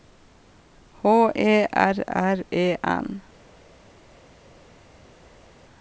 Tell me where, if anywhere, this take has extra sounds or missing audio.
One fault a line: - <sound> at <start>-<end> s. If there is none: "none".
none